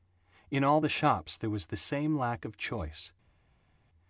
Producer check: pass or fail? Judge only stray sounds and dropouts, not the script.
pass